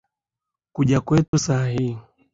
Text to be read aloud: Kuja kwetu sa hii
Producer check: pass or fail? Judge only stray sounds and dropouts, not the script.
fail